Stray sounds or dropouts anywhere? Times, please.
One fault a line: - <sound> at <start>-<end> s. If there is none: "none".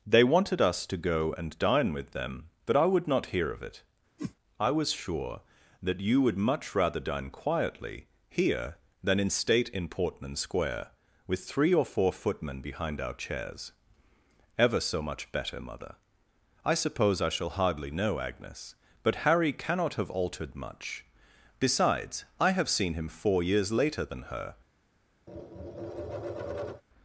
- whoosh at 4.2-4.4 s
- tap at 25.3-26.8 s